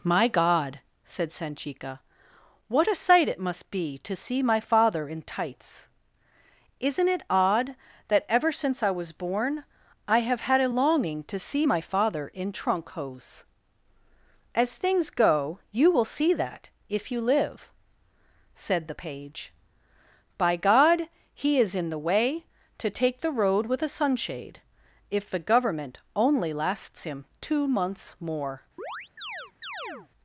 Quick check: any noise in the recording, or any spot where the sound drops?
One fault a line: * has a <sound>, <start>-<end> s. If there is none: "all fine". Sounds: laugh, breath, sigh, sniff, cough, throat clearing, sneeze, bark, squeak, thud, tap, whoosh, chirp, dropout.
* has a chirp, 28.8-30.1 s